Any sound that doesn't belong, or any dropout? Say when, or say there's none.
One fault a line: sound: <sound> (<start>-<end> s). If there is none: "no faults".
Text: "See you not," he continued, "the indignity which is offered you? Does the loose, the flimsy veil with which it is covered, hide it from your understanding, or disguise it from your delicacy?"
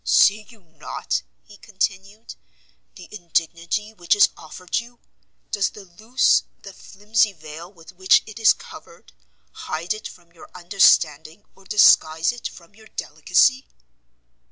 no faults